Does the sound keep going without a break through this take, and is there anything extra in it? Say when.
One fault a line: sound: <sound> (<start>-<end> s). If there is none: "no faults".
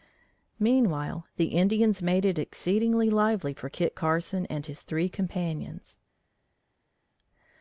no faults